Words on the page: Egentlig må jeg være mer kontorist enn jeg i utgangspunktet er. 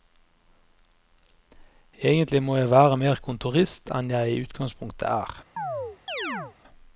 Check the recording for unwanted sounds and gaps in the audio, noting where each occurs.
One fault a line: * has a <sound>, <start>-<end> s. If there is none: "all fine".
* has a chirp, 5.6-6.6 s